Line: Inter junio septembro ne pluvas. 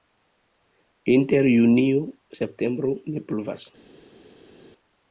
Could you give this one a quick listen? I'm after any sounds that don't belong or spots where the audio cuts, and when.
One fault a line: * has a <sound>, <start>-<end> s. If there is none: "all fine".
all fine